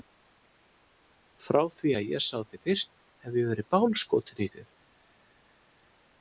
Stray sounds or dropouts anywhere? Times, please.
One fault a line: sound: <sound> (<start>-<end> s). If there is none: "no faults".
no faults